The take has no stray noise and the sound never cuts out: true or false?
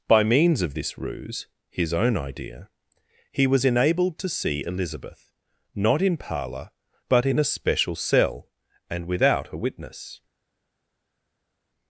true